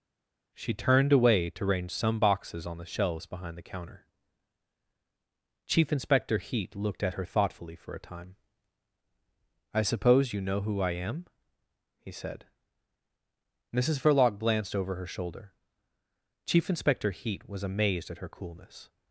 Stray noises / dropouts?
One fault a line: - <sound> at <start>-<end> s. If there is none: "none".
none